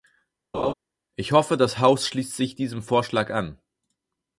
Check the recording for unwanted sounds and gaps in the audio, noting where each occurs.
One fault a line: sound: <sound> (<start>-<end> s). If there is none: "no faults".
sound: laugh (0.5-0.7 s)